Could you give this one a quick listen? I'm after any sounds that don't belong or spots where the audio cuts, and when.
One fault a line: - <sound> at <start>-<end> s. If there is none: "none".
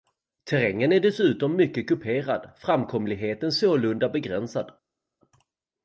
none